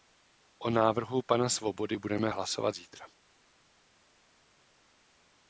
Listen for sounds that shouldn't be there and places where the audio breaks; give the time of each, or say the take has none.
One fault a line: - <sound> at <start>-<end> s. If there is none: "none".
none